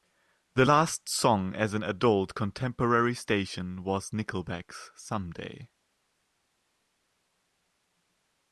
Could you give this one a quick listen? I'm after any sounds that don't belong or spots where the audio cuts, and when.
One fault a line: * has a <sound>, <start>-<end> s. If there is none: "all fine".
all fine